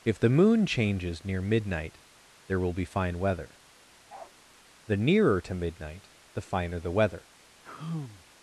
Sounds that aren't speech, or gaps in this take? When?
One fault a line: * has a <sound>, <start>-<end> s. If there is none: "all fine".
* has a bark, 4.1-4.3 s
* has a sigh, 7.6-8.2 s